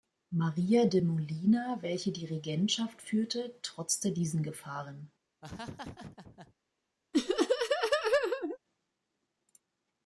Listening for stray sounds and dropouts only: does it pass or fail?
fail